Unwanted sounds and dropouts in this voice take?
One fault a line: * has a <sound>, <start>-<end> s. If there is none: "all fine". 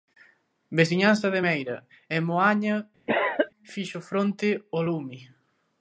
* has a cough, 3.1-3.5 s